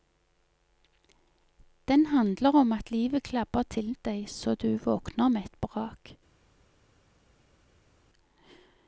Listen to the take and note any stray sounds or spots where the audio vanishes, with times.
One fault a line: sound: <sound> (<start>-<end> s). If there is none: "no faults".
no faults